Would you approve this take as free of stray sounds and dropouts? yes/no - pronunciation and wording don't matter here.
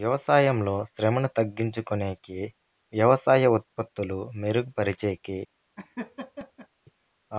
no